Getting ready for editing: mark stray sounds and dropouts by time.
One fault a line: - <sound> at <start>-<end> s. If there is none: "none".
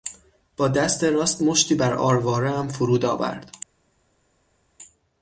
none